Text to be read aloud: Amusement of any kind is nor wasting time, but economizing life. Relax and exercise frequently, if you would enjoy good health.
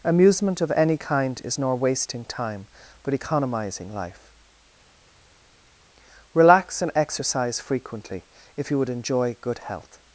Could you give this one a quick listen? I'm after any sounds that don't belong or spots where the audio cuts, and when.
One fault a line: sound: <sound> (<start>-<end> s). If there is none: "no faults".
no faults